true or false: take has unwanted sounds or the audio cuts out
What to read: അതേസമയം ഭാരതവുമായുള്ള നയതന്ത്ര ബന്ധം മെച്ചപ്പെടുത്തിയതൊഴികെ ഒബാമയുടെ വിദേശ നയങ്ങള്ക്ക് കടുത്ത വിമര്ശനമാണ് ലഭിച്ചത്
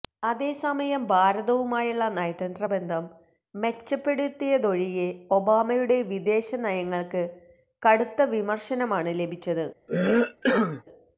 true